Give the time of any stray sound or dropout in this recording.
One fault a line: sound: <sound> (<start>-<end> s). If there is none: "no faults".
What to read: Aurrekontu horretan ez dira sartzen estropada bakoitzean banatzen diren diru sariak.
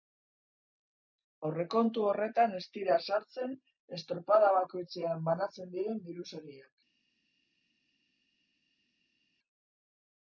no faults